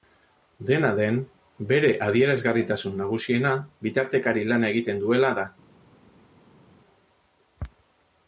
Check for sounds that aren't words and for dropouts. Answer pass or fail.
pass